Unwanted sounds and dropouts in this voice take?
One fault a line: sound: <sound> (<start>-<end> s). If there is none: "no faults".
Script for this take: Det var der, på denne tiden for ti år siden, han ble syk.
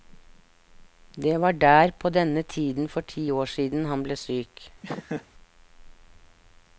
sound: laugh (4.8-5.3 s)